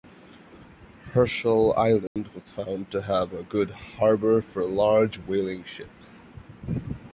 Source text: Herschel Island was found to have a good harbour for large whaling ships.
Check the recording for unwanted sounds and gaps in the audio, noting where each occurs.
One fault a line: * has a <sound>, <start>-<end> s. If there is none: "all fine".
* has a dropout, 2.1-2.2 s